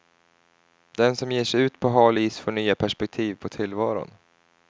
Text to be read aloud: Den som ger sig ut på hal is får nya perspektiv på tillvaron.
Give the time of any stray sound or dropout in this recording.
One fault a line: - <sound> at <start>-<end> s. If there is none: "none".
none